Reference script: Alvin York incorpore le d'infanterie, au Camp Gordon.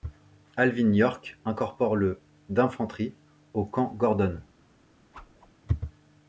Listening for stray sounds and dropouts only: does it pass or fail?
fail